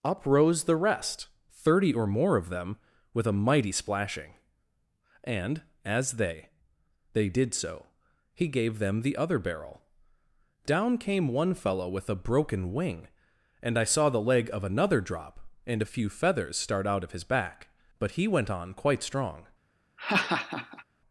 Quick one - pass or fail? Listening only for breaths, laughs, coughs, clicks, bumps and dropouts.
fail